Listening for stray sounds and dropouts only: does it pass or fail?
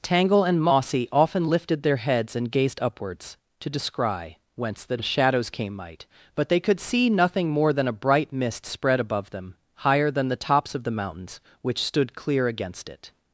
pass